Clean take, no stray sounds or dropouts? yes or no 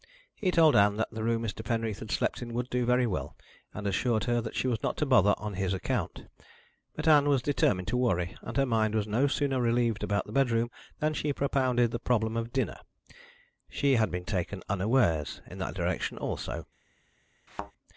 no